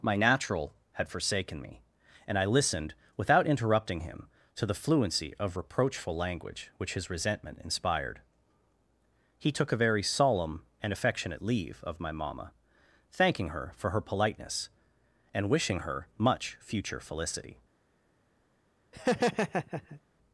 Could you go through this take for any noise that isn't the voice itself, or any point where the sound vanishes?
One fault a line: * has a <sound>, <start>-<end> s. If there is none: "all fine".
* has a laugh, 18.9-20.0 s